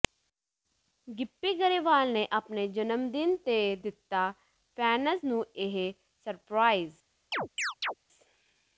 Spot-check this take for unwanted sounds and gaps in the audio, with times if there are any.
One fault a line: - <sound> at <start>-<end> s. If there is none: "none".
- chirp at 7.3-7.9 s